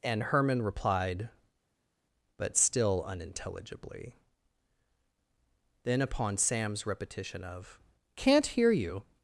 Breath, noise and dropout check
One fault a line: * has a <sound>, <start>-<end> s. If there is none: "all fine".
all fine